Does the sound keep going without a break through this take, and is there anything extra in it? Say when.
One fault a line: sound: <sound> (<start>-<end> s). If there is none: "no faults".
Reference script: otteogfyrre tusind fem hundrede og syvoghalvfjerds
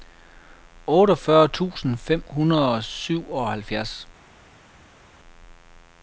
no faults